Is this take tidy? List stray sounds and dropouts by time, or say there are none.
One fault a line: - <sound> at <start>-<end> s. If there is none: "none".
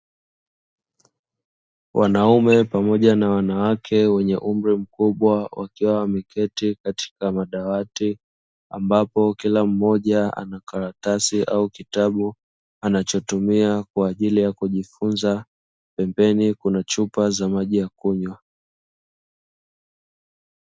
none